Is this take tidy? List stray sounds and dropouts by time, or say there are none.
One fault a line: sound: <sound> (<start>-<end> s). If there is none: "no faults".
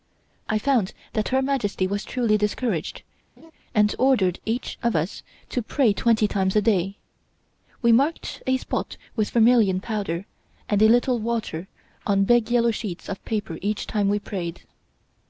sound: laugh (3.4-3.5 s)